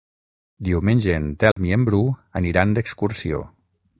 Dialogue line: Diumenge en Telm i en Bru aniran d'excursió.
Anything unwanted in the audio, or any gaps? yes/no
yes